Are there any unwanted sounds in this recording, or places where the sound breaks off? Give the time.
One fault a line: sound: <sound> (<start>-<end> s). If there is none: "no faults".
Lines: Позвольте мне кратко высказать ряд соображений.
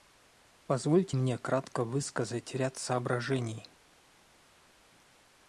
no faults